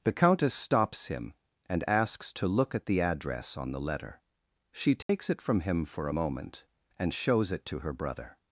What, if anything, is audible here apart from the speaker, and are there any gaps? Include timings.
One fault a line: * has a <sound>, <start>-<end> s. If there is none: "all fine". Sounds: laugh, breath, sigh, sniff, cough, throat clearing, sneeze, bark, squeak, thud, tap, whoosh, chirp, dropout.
* has a dropout, 5.0-5.1 s